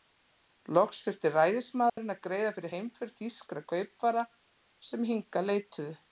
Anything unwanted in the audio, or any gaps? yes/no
yes